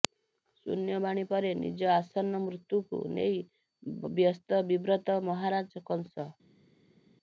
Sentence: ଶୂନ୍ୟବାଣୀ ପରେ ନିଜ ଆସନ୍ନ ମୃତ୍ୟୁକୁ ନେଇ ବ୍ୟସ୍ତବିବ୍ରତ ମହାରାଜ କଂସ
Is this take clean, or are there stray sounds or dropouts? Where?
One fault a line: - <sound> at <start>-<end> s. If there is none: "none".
none